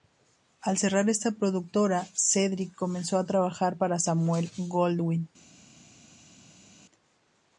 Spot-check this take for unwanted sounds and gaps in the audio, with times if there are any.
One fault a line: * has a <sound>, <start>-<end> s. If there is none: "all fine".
all fine